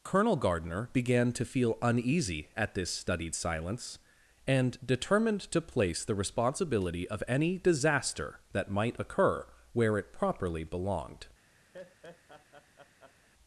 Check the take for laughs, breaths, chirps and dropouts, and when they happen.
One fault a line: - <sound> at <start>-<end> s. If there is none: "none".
- laugh at 11.7-13.3 s